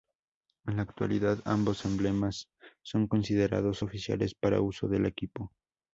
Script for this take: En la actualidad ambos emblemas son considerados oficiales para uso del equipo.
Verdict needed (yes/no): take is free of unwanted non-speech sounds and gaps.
yes